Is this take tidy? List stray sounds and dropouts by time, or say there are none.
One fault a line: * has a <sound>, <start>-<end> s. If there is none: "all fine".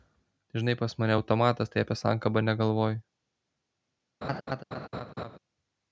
* has a laugh, 4.2-5.4 s